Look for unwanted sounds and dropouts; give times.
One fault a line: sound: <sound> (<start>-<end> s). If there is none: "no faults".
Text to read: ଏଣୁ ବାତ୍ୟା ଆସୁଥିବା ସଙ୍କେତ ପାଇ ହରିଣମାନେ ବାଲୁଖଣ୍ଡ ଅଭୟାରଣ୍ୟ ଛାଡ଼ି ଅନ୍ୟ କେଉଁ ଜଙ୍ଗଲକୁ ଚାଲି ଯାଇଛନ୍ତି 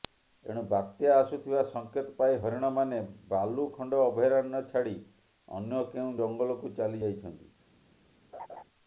sound: laugh (8.3-8.6 s)